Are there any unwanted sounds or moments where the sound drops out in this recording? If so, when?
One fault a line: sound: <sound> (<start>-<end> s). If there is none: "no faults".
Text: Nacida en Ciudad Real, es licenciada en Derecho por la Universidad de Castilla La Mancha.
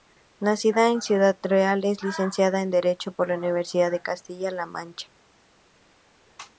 no faults